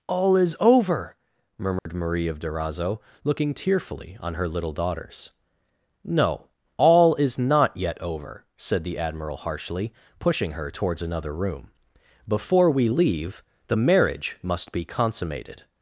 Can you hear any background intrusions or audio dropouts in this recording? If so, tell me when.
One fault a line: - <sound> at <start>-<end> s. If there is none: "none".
- dropout at 1.8-1.9 s